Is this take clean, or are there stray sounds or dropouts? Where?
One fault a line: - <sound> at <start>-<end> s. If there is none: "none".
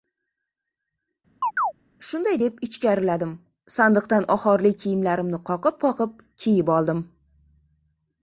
- chirp at 1.4-1.7 s